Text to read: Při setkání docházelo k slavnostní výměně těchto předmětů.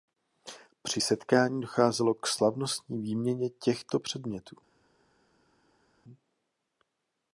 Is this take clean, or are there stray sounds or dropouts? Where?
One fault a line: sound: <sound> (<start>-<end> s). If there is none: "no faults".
no faults